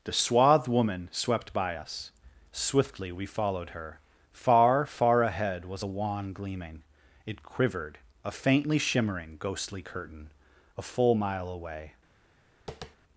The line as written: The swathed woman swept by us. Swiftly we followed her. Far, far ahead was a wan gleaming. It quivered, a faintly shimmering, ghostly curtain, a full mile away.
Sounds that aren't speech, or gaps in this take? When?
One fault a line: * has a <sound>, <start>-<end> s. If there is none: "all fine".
* has a tap, 12.7-13.0 s